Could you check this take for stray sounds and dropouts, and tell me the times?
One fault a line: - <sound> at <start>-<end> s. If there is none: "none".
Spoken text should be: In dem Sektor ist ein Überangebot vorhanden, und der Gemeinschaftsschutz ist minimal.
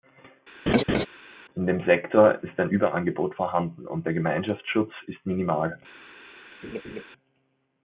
- laugh at 0.7-1.1 s
- laugh at 6.6-7.0 s